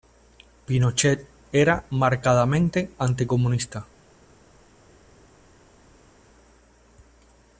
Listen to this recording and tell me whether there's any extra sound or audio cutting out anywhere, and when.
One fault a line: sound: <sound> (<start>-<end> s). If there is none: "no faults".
no faults